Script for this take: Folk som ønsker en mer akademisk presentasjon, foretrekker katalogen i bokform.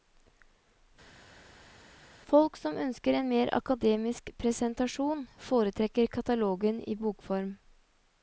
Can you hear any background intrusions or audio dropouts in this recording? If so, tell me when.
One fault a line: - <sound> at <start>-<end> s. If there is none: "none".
none